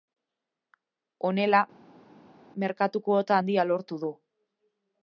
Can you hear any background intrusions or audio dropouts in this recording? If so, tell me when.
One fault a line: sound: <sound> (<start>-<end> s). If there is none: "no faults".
no faults